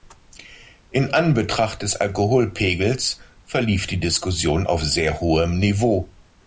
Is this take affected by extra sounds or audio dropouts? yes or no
no